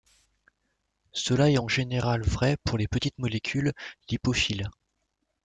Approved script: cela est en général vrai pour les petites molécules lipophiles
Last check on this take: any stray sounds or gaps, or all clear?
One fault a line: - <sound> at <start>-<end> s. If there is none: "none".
none